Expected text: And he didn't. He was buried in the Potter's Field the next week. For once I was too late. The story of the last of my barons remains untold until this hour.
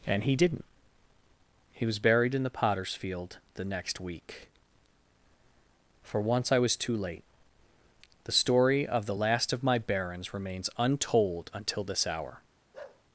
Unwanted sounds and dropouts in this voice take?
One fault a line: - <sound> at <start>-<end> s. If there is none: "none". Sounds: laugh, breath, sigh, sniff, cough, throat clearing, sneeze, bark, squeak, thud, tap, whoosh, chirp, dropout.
- bark at 12.7-13.0 s